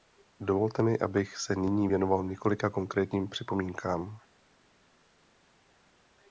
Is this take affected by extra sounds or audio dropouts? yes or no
no